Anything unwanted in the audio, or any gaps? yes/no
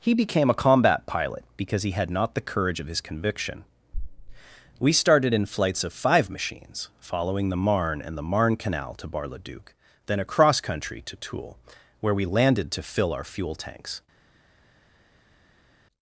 no